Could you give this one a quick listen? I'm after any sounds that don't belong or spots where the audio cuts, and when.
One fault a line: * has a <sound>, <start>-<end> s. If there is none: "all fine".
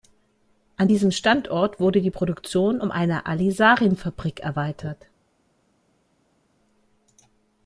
all fine